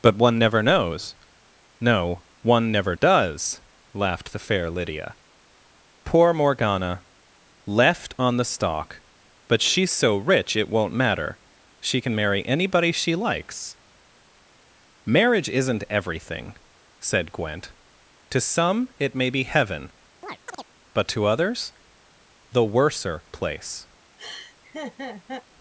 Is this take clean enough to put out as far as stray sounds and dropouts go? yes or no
no